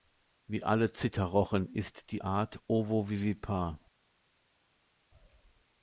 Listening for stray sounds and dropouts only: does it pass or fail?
pass